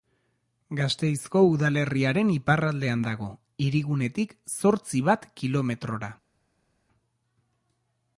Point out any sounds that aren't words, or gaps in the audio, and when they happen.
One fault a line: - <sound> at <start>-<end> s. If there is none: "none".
none